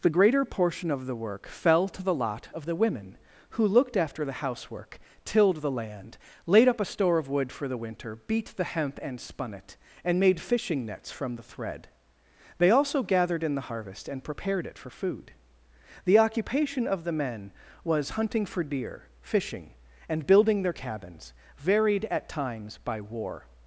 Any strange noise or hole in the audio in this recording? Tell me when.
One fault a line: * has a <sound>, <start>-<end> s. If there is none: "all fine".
all fine